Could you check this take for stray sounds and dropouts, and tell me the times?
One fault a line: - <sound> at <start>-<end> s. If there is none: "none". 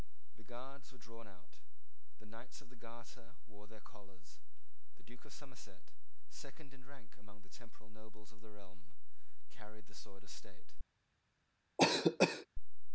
- cough at 11.8-12.5 s